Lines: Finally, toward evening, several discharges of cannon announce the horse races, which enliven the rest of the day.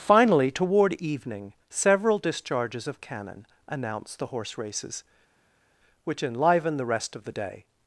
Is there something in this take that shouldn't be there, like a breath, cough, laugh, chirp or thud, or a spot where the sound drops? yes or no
no